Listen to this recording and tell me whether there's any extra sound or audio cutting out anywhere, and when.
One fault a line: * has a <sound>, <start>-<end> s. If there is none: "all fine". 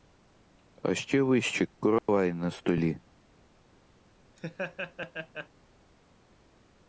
* has a dropout, 2.0-2.1 s
* has a laugh, 4.4-5.5 s